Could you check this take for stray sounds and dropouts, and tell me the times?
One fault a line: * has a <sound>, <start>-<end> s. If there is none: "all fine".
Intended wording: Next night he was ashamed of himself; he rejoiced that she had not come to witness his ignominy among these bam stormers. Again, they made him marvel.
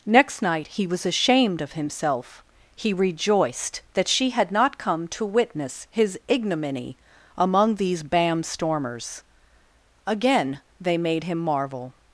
all fine